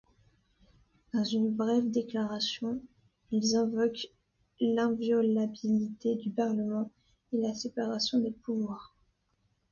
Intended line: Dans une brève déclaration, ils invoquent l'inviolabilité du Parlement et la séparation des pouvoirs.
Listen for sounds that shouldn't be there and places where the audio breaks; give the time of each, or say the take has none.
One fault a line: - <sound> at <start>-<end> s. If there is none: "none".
none